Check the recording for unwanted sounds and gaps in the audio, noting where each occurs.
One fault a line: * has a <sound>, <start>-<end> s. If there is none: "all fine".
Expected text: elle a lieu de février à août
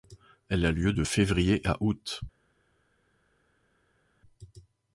all fine